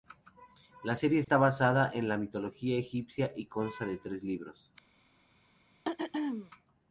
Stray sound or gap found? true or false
true